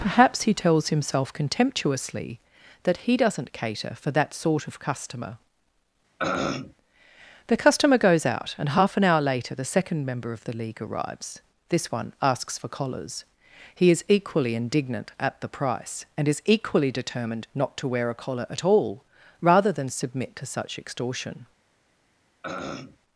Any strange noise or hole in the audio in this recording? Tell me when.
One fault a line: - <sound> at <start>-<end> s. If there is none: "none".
- throat clearing at 6.2-6.7 s
- throat clearing at 22.4-23.0 s